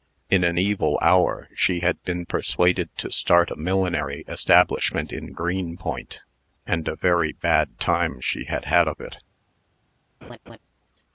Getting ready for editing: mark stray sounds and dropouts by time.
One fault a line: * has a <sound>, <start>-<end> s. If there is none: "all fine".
* has a laugh, 10.2-10.6 s